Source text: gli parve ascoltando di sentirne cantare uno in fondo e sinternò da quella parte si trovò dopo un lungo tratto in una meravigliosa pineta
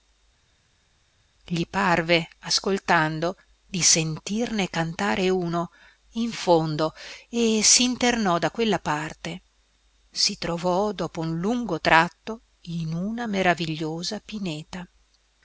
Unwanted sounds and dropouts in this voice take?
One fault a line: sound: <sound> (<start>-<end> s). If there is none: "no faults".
no faults